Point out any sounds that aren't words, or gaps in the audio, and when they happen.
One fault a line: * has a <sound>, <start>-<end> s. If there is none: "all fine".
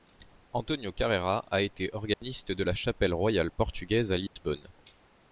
* has a dropout, 2.1-2.2 s
* has a dropout, 4.3-4.4 s